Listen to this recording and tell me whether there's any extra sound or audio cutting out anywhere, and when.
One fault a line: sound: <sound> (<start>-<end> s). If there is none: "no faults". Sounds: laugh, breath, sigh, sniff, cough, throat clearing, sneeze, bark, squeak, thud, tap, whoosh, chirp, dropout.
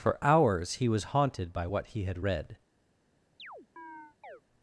sound: chirp (3.4-4.4 s)